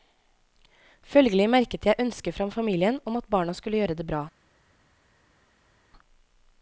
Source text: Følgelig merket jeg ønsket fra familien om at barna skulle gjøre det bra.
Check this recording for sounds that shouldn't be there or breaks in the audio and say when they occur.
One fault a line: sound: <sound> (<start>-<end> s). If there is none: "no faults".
no faults